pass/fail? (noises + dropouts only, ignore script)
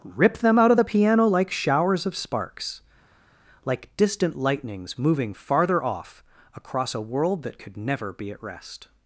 pass